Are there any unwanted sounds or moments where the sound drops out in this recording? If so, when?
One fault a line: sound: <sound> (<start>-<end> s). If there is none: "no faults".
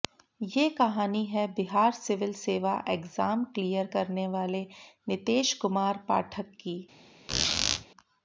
sound: squeak (7.3-7.9 s)